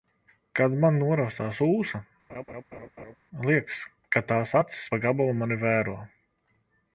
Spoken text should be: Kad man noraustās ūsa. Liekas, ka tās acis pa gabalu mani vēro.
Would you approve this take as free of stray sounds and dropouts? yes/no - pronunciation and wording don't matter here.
no